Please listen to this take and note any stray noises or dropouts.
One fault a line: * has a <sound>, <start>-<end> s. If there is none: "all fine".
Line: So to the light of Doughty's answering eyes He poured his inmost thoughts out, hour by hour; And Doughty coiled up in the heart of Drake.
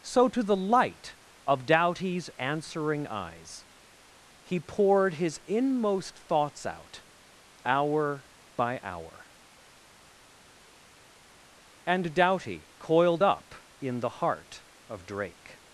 all fine